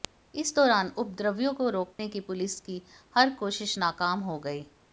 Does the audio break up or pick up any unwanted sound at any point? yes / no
yes